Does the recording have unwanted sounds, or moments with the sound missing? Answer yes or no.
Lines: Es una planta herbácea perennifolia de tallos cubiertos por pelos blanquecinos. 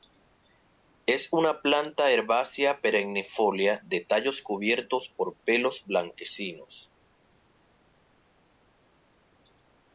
no